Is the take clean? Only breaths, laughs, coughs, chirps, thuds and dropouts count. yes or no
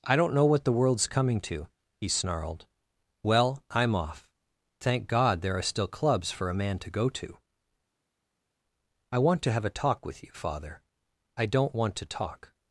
yes